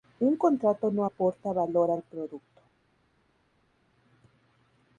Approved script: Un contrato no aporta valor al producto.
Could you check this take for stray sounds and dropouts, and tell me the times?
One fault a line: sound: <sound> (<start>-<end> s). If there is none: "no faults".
no faults